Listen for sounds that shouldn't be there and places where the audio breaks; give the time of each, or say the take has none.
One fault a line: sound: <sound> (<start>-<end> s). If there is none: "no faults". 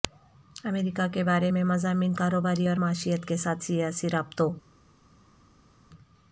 no faults